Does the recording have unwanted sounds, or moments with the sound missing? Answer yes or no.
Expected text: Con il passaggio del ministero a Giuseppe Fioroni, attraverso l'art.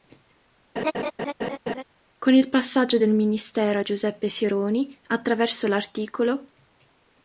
yes